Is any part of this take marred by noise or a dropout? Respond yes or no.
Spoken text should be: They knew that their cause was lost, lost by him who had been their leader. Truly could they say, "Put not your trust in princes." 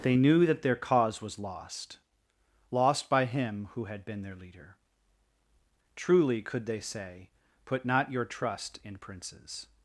no